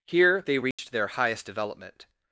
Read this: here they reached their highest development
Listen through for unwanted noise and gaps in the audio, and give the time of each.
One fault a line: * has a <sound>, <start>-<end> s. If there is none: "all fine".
* has a dropout, 0.7-0.8 s